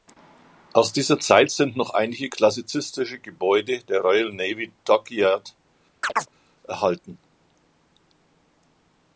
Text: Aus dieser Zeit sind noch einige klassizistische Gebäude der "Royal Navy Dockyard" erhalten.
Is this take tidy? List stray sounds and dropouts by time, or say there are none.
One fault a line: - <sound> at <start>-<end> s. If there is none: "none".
- chirp at 6.0-6.3 s